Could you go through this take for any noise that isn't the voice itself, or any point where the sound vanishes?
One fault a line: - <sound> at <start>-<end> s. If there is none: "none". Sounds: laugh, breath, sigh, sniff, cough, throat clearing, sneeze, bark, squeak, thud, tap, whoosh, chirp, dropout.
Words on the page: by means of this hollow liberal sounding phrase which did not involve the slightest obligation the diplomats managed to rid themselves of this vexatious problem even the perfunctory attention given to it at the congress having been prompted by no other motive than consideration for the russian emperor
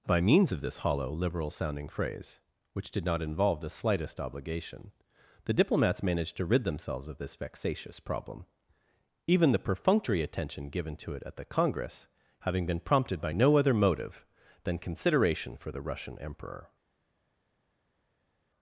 none